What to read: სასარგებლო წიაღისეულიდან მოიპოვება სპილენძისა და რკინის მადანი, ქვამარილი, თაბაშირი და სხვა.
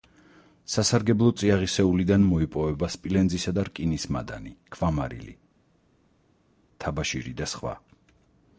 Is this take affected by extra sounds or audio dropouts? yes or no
no